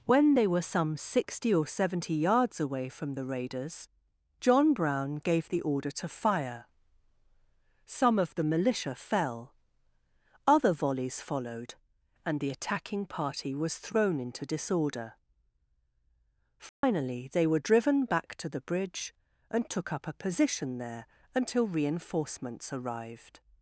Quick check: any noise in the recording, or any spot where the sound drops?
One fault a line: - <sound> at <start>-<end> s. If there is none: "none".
- dropout at 16.7-16.8 s